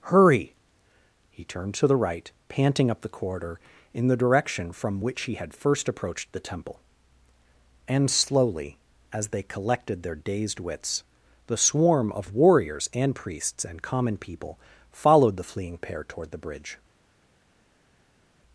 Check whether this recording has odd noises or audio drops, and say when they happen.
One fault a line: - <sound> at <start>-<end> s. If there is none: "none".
none